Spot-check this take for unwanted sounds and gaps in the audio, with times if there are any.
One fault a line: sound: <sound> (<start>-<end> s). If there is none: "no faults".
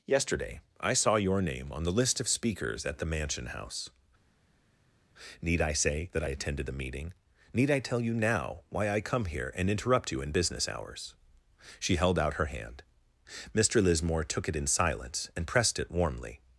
no faults